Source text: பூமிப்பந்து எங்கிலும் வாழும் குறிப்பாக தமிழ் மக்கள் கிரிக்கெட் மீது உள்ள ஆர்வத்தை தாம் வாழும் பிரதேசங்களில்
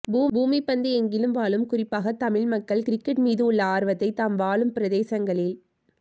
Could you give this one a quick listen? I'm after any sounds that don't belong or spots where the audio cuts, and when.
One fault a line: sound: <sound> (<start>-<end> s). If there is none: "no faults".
no faults